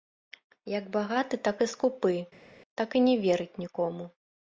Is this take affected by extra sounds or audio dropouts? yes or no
no